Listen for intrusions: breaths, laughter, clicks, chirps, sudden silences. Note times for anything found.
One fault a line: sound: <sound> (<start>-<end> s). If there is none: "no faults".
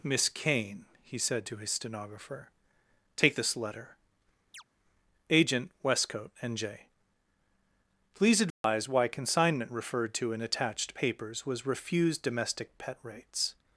sound: chirp (4.5-4.6 s)
sound: dropout (8.5-8.6 s)